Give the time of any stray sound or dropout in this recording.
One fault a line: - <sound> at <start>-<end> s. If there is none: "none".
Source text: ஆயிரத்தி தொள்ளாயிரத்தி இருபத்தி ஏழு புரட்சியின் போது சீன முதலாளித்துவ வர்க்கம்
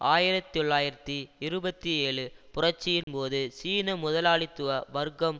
- dropout at 3.0-3.1 s